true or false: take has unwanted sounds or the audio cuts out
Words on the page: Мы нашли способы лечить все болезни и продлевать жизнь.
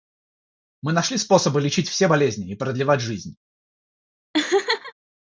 true